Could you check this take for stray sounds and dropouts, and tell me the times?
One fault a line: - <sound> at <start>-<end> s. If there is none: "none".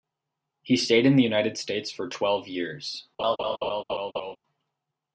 - laugh at 3.2-4.4 s